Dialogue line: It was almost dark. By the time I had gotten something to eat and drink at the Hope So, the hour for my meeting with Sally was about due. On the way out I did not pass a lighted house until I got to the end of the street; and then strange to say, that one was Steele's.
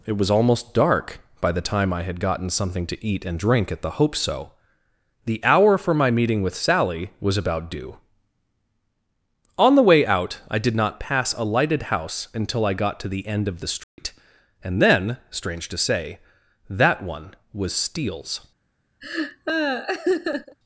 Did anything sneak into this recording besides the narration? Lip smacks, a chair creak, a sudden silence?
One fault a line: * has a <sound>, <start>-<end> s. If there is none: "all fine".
* has a dropout, 13.8-14.0 s
* has a laugh, 19.0-20.6 s